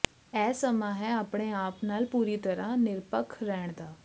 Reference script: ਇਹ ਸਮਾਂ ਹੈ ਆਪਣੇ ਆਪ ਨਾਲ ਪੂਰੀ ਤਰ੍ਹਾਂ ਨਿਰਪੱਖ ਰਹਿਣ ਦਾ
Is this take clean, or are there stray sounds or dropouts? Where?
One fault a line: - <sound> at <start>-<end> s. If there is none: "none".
none